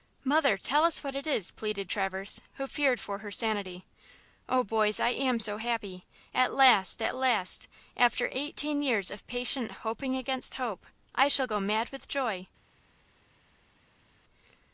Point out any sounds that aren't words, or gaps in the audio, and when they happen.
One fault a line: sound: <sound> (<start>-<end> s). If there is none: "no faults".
no faults